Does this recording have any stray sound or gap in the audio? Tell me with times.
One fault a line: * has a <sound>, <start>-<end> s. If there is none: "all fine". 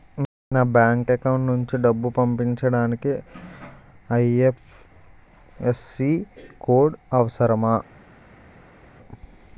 all fine